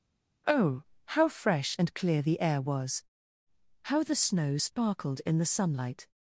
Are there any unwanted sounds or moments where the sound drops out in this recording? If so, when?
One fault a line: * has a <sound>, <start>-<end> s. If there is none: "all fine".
all fine